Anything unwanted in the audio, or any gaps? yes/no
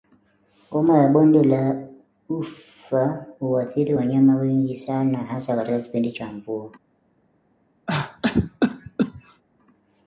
yes